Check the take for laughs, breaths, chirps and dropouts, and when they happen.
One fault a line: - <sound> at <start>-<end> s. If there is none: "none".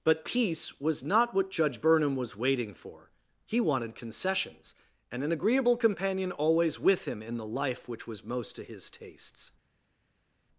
none